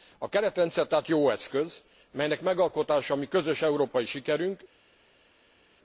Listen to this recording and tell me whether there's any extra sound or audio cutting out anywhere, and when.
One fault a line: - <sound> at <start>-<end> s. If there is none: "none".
none